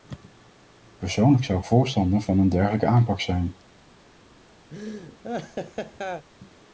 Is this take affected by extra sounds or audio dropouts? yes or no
yes